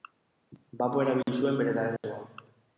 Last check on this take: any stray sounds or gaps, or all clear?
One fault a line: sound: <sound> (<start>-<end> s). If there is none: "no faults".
sound: dropout (1.2-1.3 s)
sound: dropout (2.0-2.0 s)